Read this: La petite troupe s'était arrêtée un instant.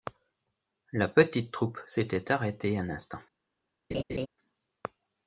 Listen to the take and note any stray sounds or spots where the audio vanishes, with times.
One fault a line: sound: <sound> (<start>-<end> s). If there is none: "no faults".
sound: laugh (3.9-4.3 s)